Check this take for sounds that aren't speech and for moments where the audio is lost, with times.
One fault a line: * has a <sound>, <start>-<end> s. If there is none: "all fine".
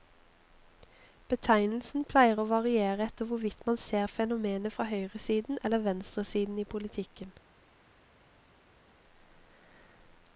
all fine